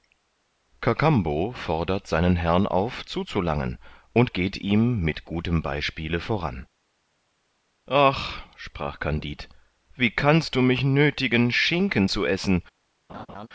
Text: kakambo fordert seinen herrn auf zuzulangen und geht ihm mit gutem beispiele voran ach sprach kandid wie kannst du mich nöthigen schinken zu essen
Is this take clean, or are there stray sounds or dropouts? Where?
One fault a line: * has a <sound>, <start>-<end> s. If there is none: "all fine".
* has a laugh, 13.1-13.5 s